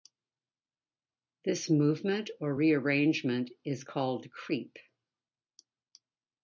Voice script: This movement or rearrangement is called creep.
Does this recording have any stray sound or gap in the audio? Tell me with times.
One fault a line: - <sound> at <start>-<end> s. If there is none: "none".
none